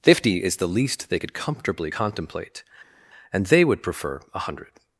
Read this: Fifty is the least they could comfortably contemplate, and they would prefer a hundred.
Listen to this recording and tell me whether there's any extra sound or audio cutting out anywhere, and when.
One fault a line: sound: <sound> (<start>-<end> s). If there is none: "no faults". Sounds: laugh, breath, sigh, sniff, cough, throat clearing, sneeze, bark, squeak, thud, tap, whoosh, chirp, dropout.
no faults